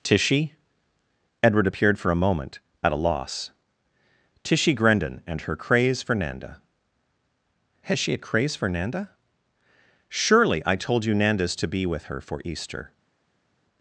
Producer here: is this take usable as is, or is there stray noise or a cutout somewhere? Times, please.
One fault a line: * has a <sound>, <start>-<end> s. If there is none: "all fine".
all fine